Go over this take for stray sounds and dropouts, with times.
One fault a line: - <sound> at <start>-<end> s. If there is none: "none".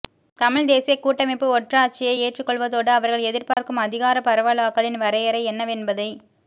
- dropout at 3.5-3.6 s